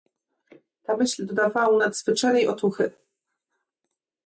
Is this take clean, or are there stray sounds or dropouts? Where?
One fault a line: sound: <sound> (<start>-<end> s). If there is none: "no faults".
no faults